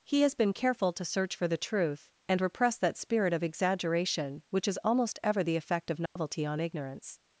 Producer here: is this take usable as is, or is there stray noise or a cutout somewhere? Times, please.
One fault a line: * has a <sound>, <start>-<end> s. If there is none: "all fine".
* has a dropout, 6.1-6.2 s